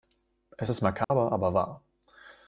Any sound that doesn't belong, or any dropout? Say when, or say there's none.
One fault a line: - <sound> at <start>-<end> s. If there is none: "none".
- dropout at 1.0-1.1 s